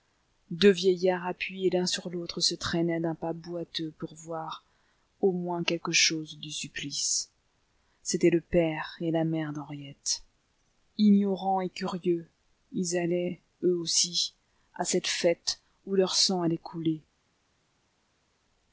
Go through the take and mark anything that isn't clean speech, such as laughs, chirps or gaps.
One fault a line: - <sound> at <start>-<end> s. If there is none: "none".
none